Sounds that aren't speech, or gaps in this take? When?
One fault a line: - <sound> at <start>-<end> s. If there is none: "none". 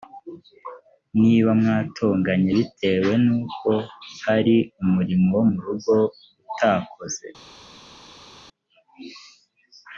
none